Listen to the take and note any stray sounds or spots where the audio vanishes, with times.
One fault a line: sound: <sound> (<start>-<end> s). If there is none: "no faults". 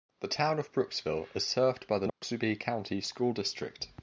sound: dropout (2.1-2.2 s)